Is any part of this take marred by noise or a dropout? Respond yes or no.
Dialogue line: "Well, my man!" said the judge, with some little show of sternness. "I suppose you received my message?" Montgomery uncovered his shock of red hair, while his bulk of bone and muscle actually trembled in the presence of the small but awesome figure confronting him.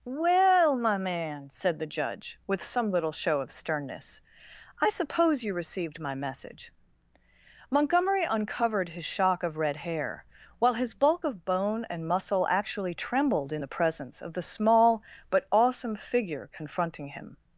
no